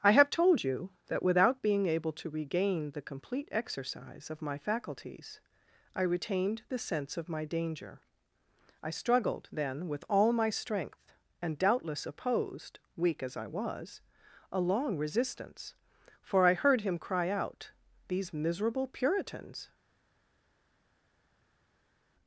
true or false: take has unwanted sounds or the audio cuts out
false